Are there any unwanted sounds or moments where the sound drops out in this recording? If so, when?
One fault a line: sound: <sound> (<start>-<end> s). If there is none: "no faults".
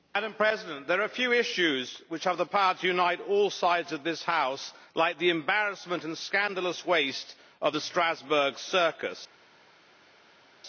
no faults